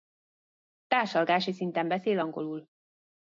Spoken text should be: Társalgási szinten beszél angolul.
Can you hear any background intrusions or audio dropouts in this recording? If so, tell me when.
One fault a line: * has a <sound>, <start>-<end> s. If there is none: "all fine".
all fine